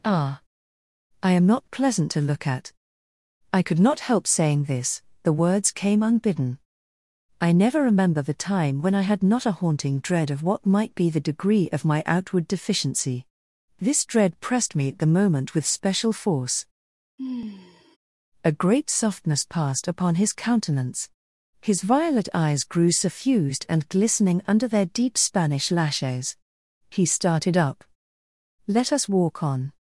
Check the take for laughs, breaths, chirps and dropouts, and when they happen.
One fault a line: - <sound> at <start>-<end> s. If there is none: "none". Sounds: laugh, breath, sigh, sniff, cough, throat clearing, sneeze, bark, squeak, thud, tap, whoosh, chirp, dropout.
- sigh at 17.2-18.0 s